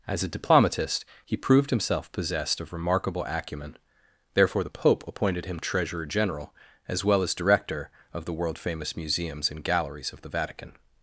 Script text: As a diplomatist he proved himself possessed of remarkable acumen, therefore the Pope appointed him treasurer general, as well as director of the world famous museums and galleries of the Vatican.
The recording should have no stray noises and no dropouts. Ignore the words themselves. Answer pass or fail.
pass